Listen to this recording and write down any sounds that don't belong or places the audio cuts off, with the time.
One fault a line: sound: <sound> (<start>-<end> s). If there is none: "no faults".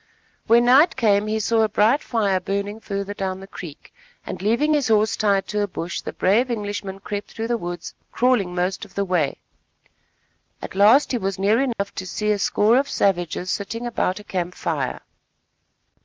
sound: dropout (11.7-11.8 s)